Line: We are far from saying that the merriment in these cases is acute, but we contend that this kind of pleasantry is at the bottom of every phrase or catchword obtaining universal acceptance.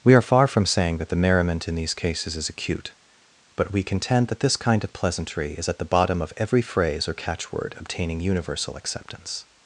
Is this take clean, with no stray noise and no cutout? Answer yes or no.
yes